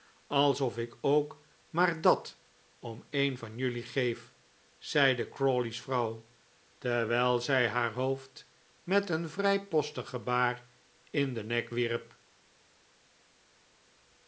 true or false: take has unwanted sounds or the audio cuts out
false